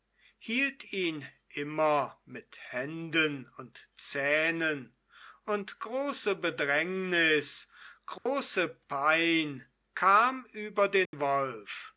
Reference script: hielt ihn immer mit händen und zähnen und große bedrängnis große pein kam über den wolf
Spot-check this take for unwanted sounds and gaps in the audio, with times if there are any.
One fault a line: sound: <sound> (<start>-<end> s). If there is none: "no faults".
sound: dropout (8.2-8.3 s)
sound: dropout (11.1-11.1 s)